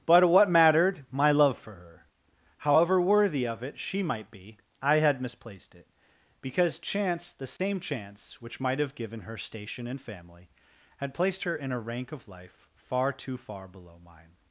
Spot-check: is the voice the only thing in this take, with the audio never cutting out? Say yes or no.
no